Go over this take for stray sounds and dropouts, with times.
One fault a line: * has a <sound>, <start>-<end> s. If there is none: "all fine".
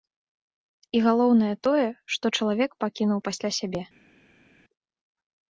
all fine